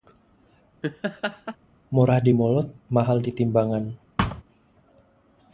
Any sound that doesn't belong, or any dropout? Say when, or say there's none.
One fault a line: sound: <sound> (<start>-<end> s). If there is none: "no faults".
sound: laugh (0.8-1.6 s)
sound: thud (4.2-4.4 s)